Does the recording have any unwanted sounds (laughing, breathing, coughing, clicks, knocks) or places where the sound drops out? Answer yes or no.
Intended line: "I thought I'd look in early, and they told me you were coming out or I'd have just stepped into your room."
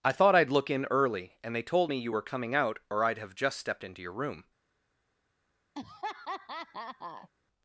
yes